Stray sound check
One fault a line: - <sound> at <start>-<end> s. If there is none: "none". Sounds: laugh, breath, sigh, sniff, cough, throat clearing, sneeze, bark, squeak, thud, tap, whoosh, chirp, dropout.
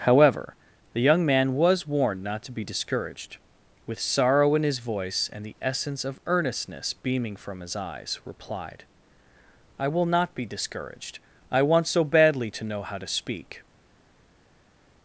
none